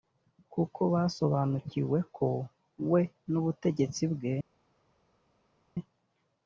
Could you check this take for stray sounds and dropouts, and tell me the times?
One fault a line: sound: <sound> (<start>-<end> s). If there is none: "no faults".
no faults